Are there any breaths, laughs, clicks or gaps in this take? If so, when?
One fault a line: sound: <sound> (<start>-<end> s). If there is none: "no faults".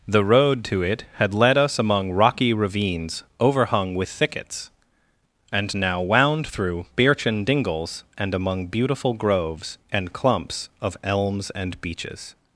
no faults